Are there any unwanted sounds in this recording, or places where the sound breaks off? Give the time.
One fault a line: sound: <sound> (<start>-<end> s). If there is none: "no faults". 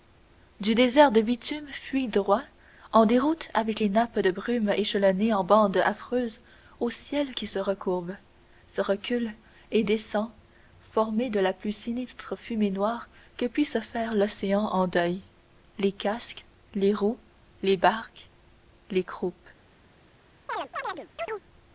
sound: chirp (20.5-21.4 s)